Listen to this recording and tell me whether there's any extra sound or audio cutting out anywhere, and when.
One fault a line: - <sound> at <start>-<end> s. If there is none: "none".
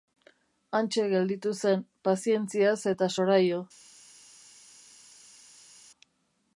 none